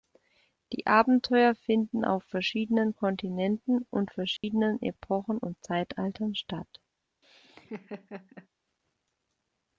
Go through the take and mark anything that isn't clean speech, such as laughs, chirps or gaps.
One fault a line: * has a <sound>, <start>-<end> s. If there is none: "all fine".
* has a dropout, 4.4-4.4 s
* has a laugh, 7.2-8.5 s